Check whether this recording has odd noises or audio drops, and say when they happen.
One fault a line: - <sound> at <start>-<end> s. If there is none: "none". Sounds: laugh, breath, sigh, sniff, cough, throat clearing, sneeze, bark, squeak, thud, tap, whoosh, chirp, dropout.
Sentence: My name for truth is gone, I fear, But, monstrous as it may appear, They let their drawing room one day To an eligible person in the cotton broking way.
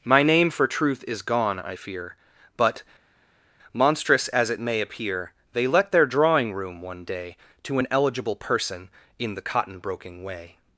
none